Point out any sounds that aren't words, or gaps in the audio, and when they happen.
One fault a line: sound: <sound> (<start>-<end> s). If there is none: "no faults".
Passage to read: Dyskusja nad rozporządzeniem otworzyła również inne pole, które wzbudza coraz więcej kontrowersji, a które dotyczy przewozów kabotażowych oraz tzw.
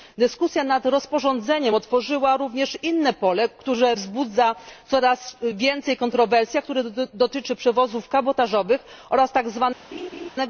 sound: laugh (9.9-10.3 s)